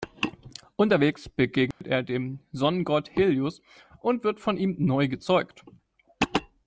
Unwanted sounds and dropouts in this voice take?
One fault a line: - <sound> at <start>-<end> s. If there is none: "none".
- dropout at 1.7-1.8 s